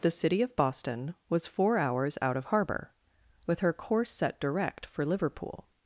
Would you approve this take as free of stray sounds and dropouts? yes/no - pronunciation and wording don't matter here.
yes